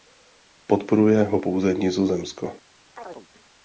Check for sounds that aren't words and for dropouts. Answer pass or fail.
fail